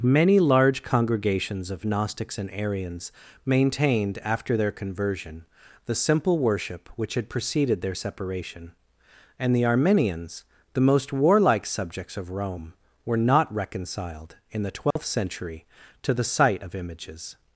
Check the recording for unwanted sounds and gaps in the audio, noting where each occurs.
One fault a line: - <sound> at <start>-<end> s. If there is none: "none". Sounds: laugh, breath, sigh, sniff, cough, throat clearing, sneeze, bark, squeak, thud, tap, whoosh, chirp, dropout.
- dropout at 14.9-15.0 s